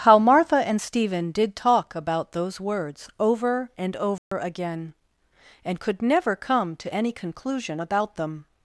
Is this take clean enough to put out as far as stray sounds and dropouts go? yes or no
no